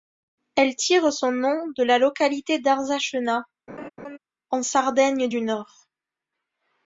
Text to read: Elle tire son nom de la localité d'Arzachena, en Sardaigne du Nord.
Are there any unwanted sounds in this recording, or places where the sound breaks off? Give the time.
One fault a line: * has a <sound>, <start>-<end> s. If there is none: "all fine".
* has a laugh, 3.7-4.2 s